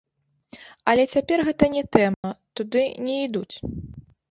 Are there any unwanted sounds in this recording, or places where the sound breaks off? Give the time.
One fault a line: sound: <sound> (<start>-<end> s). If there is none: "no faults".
sound: dropout (2.1-2.2 s)